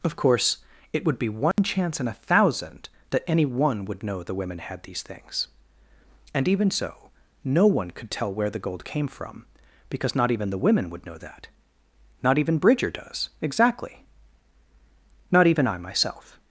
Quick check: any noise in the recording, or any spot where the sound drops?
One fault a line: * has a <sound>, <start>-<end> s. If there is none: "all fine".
* has a dropout, 1.5-1.6 s